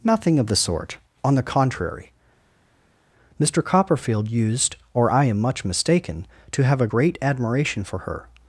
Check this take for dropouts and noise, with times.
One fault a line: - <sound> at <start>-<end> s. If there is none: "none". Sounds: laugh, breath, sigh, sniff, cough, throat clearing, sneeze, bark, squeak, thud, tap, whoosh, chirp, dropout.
none